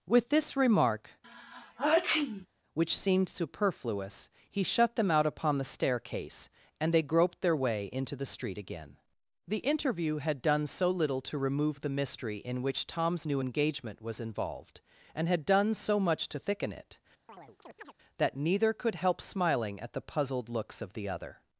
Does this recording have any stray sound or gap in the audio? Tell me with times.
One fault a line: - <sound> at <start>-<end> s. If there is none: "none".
- sneeze at 1.2-2.5 s
- chirp at 17.3-17.9 s